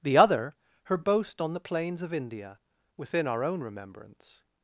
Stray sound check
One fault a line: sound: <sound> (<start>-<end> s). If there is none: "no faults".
no faults